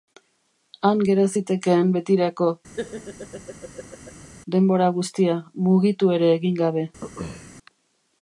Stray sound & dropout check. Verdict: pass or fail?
fail